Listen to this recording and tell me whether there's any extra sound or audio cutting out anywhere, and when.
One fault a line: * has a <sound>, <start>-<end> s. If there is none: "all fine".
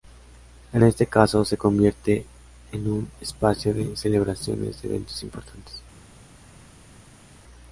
all fine